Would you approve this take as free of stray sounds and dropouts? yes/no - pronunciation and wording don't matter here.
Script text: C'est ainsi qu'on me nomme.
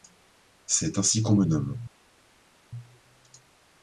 yes